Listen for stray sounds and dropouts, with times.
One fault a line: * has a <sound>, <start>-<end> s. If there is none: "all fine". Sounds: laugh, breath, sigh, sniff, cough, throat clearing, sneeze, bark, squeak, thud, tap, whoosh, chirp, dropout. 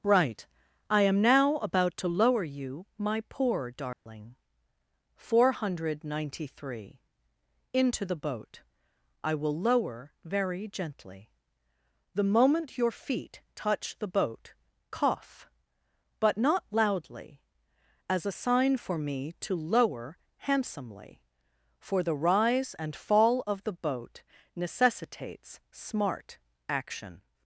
* has a dropout, 3.9-4.1 s